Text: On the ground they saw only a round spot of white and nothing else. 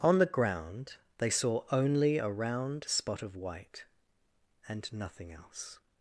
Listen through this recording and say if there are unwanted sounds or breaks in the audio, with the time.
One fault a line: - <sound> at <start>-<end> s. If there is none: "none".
none